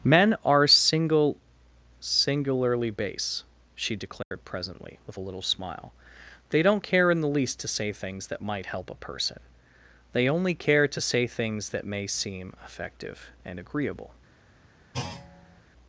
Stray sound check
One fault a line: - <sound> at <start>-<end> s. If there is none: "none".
- dropout at 4.2-4.3 s
- thud at 14.9-15.6 s